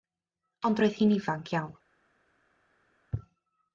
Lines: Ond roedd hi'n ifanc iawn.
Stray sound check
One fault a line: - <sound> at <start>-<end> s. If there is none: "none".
none